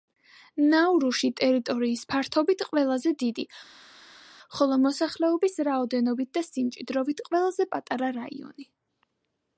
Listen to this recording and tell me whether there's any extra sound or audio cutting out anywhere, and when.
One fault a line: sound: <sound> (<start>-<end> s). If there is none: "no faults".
no faults